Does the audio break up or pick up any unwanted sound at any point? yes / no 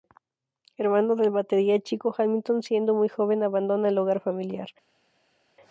no